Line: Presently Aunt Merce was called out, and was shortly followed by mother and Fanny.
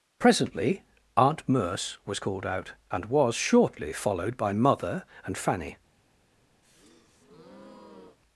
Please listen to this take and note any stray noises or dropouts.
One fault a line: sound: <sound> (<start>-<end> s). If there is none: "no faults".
sound: breath (6.6-8.2 s)